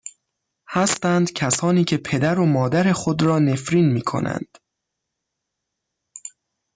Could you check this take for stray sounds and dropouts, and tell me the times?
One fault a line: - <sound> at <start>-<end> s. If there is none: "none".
none